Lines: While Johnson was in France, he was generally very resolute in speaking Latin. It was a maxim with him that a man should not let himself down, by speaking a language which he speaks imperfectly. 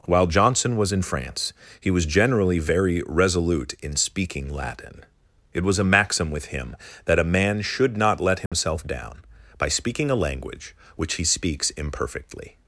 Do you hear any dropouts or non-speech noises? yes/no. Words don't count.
yes